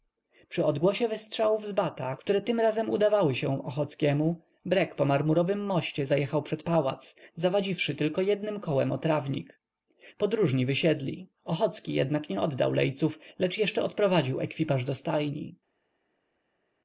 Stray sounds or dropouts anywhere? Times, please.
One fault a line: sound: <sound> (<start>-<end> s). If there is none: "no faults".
no faults